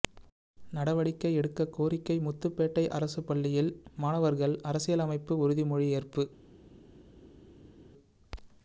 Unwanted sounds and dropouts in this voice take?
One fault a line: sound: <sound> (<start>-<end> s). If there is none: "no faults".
no faults